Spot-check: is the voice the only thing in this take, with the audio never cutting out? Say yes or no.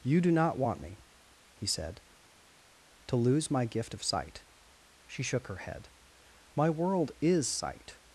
yes